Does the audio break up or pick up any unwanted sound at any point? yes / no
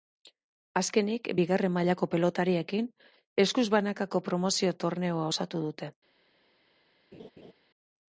yes